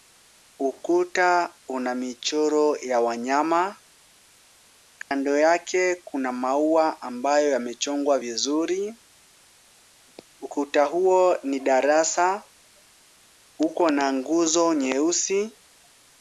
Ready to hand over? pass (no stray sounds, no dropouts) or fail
fail